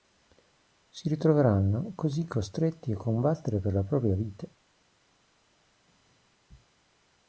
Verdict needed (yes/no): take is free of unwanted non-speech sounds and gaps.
yes